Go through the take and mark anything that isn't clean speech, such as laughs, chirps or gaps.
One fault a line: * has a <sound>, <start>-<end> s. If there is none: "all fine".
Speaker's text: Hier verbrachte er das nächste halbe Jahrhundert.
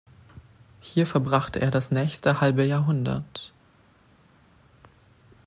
all fine